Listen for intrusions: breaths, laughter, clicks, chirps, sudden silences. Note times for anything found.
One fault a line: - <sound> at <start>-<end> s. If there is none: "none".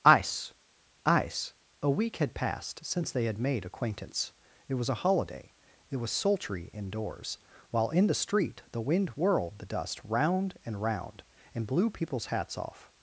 none